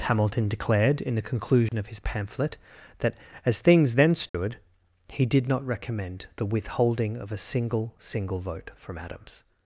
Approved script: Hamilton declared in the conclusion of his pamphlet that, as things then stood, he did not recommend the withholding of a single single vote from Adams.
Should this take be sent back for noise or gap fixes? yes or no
yes